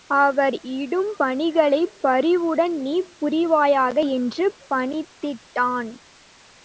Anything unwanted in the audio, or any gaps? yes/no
no